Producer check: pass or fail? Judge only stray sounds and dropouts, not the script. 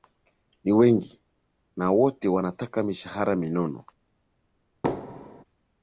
fail